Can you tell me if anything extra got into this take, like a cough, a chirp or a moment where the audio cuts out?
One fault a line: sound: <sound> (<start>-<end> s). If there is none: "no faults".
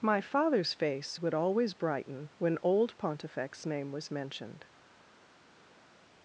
no faults